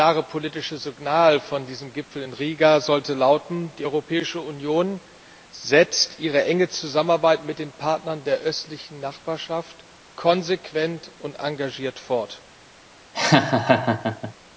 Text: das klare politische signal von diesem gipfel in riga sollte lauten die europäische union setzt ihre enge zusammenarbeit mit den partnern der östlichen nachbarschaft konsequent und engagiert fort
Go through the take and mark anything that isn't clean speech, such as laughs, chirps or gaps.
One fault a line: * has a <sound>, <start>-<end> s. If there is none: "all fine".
* has a laugh, 13.1-14.3 s